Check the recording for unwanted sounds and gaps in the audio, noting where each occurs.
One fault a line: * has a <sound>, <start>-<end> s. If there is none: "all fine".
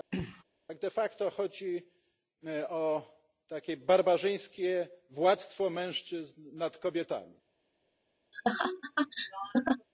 * has a throat clearing, 0.1-0.4 s
* has a laugh, 8.3-9.9 s